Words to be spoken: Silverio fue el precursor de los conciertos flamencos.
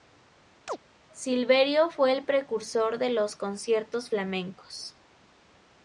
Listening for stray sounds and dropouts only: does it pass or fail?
fail